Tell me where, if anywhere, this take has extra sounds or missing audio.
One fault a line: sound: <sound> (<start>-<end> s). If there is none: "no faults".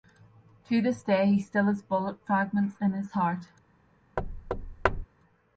sound: thud (4.2-5.1 s)